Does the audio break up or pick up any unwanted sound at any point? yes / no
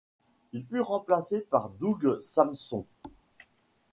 yes